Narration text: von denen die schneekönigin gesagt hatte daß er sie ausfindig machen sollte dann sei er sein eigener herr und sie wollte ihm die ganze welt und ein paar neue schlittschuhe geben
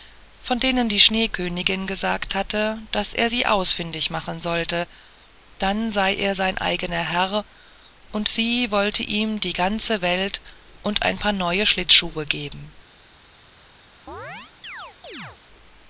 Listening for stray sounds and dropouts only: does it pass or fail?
fail